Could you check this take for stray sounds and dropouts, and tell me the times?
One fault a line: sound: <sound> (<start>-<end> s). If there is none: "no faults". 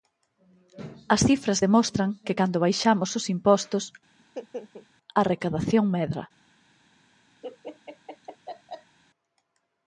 sound: laugh (4.2-4.9 s)
sound: laugh (7.4-9.0 s)